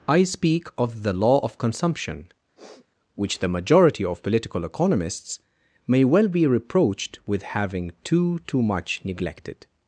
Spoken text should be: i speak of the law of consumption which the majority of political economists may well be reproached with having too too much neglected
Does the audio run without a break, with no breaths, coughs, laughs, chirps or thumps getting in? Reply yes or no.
no